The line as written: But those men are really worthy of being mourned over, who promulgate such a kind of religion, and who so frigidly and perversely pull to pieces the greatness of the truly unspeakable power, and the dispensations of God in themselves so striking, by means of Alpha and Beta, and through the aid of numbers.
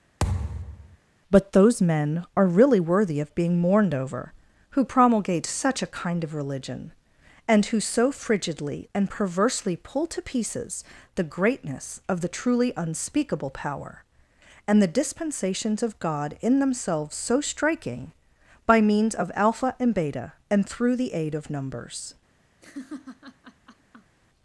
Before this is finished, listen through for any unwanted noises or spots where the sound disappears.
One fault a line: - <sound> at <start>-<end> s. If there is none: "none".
- thud at 0.2-1.0 s
- laugh at 22.6-24.2 s